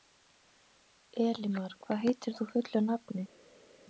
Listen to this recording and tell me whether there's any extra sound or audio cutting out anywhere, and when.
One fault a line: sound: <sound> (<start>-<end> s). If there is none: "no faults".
no faults